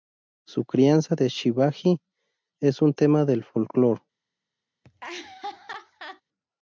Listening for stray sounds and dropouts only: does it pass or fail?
fail